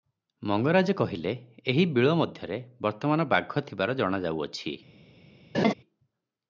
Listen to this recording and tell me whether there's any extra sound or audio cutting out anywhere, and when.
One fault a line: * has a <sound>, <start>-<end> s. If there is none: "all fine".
* has a laugh, 5.5-5.7 s